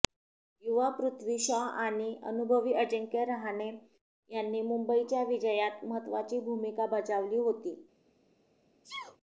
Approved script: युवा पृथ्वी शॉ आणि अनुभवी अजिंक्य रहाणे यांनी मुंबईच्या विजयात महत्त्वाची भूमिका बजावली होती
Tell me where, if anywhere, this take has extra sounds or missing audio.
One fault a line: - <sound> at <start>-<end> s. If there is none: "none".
- sneeze at 8.8-9.2 s